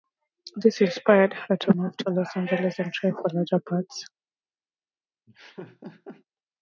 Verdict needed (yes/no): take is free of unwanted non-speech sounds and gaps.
no